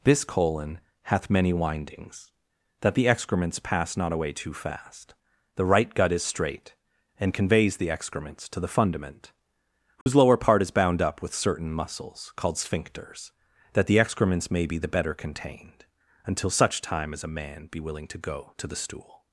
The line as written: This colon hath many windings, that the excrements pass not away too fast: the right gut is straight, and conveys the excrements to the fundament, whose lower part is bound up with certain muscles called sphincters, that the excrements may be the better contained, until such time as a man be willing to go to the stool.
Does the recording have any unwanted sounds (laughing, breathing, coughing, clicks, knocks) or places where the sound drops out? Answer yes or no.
yes